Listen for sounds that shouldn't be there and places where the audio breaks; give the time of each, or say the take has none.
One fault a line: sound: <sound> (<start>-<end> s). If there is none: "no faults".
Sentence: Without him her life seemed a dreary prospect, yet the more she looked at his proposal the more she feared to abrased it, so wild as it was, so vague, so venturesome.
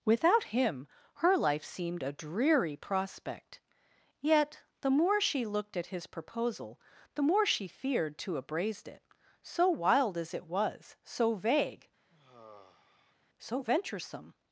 sound: sigh (12.1-13.2 s)